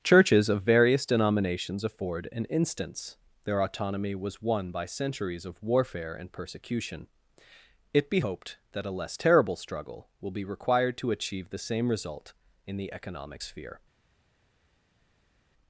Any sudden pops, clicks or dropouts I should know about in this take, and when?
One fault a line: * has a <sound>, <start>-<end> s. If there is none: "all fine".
all fine